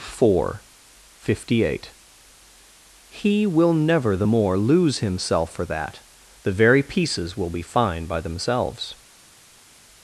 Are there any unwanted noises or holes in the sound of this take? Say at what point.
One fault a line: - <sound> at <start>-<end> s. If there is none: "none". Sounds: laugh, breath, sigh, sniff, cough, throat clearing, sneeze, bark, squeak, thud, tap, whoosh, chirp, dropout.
none